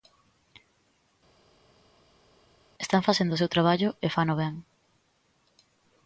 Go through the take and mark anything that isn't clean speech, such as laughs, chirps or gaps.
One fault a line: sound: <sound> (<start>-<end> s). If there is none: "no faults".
no faults